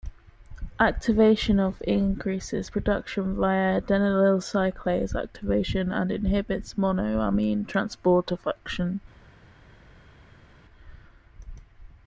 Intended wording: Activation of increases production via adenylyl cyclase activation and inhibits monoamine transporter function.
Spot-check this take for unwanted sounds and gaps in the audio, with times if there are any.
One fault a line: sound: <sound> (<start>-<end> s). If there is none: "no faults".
no faults